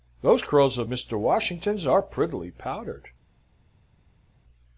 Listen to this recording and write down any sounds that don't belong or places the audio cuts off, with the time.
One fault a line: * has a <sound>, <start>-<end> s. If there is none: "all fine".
all fine